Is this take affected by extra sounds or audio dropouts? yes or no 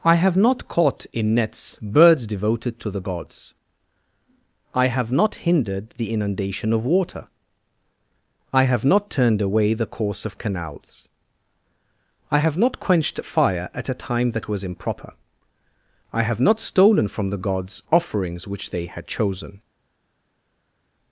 no